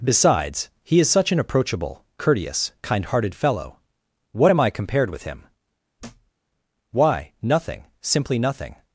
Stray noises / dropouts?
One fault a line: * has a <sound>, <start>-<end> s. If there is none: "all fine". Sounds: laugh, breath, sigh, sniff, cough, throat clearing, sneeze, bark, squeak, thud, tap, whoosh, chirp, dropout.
* has a thud, 6.0-6.3 s